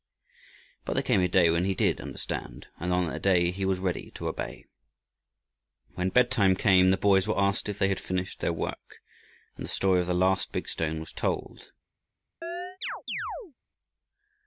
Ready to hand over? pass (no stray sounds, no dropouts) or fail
fail